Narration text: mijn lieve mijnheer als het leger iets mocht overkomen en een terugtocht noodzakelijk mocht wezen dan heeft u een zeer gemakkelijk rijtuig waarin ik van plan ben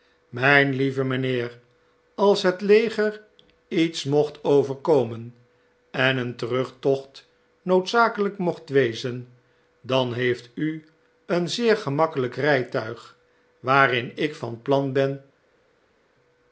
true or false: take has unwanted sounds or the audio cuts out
false